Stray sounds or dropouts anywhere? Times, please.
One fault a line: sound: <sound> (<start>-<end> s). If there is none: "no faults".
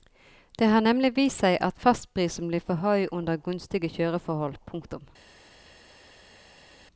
no faults